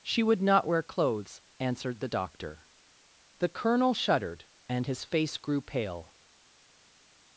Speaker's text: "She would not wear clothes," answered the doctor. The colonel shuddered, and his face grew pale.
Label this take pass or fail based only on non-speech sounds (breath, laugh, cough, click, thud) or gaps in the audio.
pass